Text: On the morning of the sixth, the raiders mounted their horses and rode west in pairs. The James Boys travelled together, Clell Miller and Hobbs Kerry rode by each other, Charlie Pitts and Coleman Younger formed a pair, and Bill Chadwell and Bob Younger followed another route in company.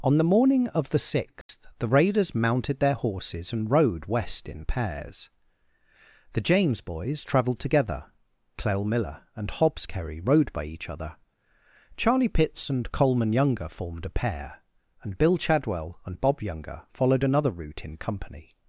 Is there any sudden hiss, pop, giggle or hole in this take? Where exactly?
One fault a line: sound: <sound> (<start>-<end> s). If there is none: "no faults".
sound: dropout (1.4-1.5 s)